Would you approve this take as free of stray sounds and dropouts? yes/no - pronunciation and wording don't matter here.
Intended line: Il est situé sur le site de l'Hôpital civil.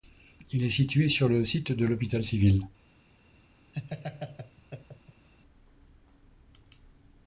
no